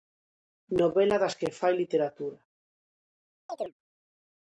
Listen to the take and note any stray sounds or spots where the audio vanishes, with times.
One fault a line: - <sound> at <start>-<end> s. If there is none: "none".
- chirp at 3.5-3.7 s